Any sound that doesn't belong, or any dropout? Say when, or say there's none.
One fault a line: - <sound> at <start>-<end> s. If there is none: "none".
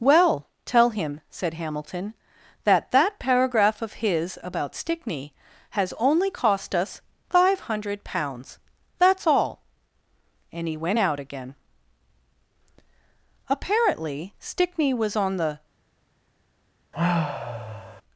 - sigh at 16.9-18.0 s